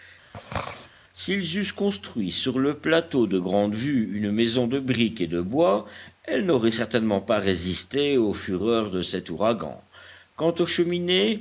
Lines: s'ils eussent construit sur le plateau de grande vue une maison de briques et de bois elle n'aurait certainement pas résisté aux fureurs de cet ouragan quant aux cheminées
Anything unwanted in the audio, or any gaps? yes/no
yes